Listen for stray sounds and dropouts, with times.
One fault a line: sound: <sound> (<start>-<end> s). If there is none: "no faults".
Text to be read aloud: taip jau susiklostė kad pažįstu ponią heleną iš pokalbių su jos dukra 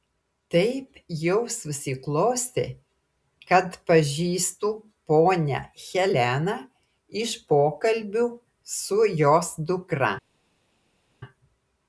no faults